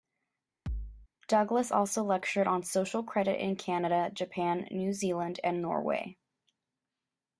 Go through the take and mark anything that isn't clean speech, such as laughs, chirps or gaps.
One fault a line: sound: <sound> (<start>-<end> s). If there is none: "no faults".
sound: thud (0.7-1.1 s)